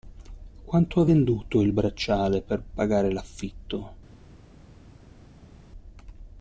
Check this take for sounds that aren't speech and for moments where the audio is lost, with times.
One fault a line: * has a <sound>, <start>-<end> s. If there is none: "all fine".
all fine